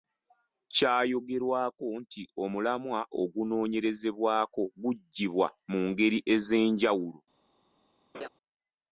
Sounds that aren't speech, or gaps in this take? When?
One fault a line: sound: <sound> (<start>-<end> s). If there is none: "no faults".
sound: laugh (8.1-8.3 s)